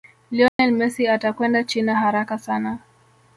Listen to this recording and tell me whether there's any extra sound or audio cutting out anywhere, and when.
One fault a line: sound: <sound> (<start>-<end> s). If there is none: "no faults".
sound: dropout (0.5-0.6 s)